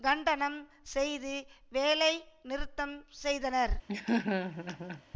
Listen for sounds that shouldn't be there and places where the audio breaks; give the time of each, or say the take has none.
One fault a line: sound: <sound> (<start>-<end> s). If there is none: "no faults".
sound: laugh (3.9-5.0 s)